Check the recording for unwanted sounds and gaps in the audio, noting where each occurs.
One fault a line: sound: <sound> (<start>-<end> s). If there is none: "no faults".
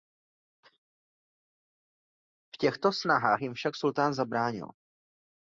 no faults